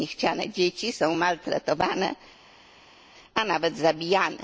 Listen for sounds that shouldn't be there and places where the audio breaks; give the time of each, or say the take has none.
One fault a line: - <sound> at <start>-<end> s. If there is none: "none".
none